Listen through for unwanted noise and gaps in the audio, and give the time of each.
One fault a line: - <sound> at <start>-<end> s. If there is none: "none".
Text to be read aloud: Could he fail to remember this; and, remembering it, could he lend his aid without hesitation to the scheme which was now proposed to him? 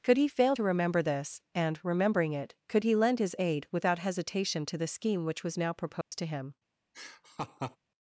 - dropout at 6.0-6.1 s
- laugh at 6.9-7.8 s